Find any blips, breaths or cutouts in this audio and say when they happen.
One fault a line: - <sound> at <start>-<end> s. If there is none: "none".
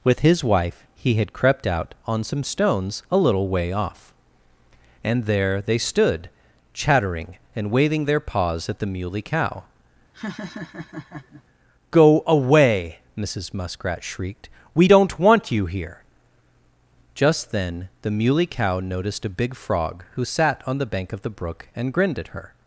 - laugh at 10.1-11.4 s